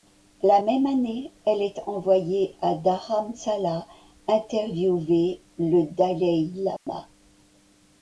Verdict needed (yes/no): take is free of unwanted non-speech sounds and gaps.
no